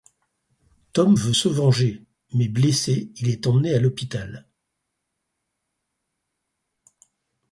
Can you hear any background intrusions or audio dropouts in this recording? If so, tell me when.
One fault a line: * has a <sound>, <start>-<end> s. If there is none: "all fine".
all fine